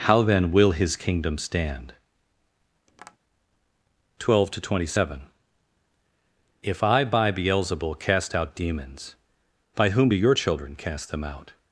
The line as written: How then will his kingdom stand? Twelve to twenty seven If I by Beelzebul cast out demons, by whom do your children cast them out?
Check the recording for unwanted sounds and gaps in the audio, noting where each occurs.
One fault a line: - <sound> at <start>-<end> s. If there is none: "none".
- tap at 2.9-3.2 s